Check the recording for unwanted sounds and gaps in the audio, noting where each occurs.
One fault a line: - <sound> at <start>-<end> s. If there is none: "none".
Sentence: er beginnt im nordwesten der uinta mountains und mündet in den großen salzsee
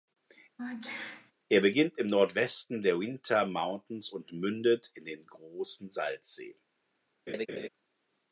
- sneeze at 0.6-1.3 s
- laugh at 7.3-7.7 s